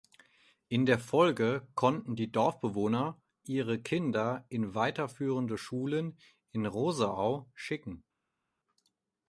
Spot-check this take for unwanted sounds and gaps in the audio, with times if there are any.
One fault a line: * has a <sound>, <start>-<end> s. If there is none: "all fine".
all fine